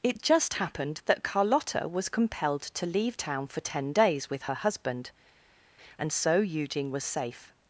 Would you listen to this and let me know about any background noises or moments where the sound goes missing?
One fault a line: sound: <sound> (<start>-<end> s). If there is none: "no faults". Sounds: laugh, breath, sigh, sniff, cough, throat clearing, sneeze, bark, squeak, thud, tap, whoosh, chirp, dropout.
no faults